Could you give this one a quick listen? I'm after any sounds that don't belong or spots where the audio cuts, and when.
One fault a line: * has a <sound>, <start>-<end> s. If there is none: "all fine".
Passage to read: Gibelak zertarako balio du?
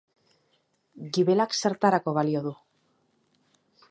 all fine